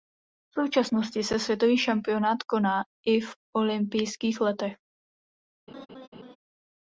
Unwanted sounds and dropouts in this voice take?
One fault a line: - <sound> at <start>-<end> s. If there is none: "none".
- laugh at 5.7-6.4 s